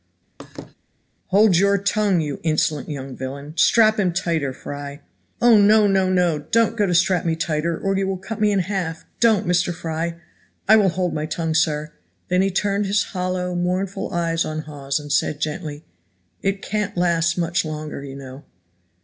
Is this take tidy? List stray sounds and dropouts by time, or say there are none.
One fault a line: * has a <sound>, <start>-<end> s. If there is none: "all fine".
* has a laugh, 0.4-0.7 s